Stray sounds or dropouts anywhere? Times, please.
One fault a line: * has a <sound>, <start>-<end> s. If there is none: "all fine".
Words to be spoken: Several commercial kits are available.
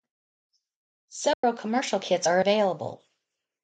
* has a dropout, 1.3-1.4 s